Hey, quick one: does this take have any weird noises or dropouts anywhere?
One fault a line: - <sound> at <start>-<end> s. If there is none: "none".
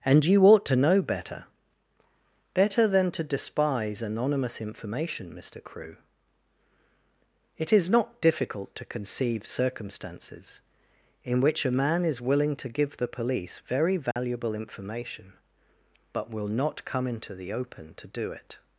- dropout at 14.1-14.2 s